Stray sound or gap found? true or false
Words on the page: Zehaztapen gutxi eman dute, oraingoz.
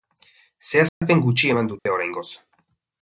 true